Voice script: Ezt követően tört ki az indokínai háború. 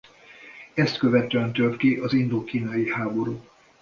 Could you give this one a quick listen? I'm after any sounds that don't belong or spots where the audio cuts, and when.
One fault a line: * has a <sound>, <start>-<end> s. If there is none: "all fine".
all fine